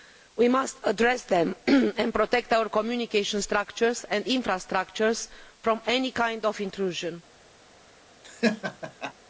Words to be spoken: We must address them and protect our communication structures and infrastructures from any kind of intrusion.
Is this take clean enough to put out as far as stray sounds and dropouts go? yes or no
no